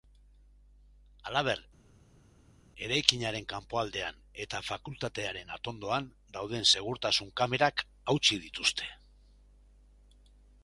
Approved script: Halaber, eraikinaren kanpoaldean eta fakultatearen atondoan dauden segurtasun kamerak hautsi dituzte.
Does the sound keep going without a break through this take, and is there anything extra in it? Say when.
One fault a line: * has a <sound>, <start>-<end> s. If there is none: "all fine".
all fine